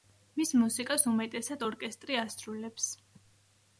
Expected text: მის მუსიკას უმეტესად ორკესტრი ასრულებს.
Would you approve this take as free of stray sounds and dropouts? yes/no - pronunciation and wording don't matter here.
yes